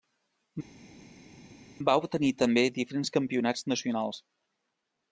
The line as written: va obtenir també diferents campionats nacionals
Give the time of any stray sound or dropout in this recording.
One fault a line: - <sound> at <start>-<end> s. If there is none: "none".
none